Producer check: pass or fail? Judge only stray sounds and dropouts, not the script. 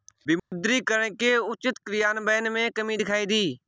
fail